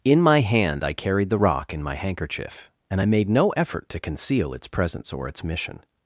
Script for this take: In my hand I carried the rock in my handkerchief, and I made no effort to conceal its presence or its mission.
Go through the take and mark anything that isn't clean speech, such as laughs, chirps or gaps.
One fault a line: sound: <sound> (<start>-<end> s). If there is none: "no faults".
no faults